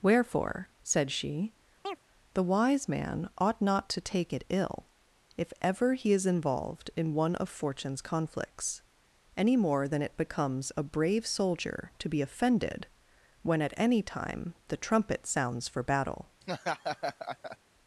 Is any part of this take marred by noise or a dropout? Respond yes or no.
yes